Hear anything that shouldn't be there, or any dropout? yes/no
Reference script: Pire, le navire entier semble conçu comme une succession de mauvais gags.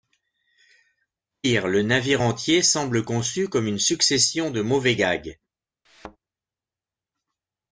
yes